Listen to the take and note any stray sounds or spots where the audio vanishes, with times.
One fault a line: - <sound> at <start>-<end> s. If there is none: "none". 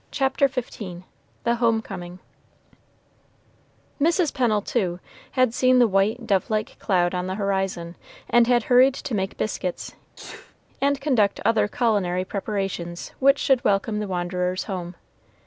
- sneeze at 10.2-10.6 s